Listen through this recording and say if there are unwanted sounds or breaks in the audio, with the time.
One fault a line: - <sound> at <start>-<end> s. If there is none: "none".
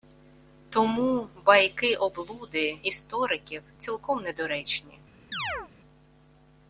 - chirp at 5.3-5.7 s